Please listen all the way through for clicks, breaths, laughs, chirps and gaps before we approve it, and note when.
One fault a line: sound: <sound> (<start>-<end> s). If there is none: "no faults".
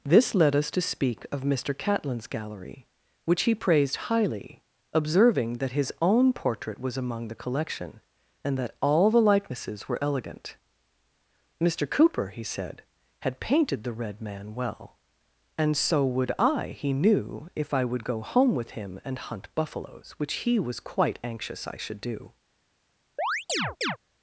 sound: chirp (23.2-24.0 s)